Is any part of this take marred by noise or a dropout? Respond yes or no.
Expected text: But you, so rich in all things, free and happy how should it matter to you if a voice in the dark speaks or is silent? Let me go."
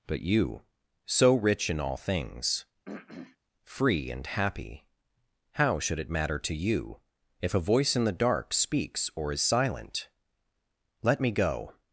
yes